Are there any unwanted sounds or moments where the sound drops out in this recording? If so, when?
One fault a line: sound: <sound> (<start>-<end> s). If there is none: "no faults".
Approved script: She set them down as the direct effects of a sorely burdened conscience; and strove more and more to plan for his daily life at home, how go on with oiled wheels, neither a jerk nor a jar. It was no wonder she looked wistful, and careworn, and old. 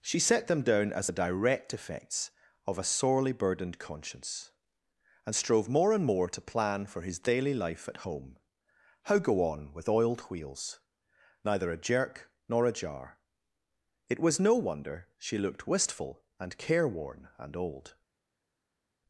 no faults